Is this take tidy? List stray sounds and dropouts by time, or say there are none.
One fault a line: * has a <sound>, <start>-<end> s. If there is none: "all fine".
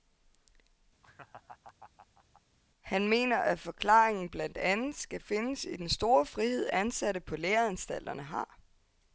* has a laugh, 1.0-2.4 s